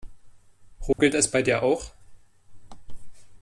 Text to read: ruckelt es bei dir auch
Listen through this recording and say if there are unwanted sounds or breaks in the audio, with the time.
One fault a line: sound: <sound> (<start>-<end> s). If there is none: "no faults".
sound: dropout (0.9-1.0 s)